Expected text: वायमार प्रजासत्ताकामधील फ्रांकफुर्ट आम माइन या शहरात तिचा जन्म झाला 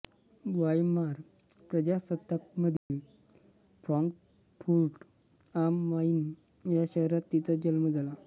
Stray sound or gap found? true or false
true